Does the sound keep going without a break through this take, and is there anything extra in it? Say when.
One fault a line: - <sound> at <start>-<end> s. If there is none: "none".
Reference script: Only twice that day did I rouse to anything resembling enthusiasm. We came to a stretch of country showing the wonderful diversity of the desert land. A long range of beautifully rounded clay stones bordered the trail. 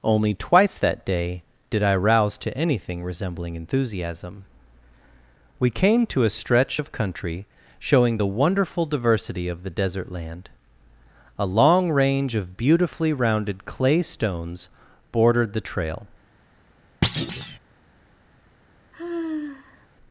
- thud at 17.0-17.6 s
- sigh at 18.9-19.9 s